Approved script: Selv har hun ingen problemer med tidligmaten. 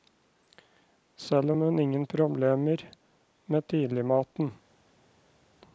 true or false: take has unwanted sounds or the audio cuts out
false